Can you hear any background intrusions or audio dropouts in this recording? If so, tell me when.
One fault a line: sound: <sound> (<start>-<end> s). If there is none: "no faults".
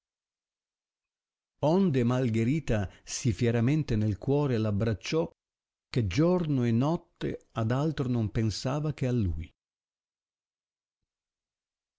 no faults